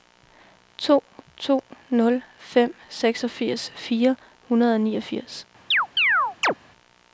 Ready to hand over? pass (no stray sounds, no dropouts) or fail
fail